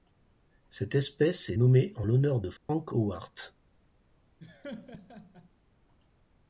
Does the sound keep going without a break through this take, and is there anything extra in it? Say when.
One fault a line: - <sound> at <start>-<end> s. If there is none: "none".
- dropout at 2.6-2.7 s
- laugh at 4.4-5.5 s